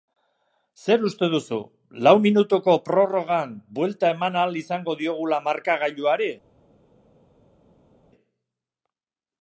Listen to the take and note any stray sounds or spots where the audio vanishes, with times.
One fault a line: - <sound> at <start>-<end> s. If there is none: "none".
none